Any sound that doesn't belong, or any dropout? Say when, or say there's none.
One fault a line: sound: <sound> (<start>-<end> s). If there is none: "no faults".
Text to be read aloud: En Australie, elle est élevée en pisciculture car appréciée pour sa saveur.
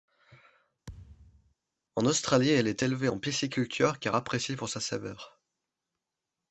sound: thud (0.9-1.5 s)